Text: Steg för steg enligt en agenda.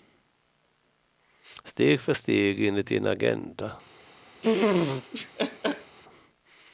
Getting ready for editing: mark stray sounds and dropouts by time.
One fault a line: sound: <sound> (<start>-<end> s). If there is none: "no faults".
sound: laugh (4.4-6.0 s)